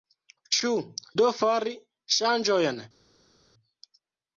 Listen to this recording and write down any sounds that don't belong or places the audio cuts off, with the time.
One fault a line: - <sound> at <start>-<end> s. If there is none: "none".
none